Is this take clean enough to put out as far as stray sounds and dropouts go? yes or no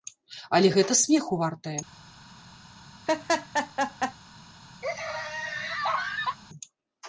no